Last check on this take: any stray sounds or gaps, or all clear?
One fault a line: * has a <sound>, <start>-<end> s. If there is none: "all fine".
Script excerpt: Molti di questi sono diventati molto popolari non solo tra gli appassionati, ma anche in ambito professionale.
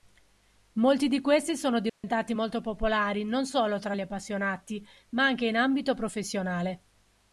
* has a dropout, 1.9-2.0 s